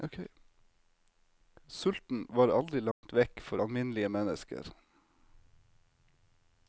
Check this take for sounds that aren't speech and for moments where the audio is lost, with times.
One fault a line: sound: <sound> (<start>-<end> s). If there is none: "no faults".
sound: dropout (2.9-3.0 s)